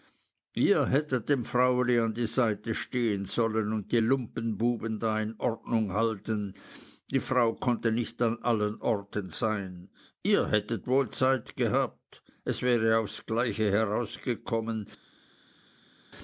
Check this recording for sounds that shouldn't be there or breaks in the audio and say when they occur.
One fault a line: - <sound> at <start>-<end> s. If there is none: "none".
none